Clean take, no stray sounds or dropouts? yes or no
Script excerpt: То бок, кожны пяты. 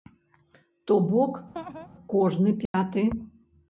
no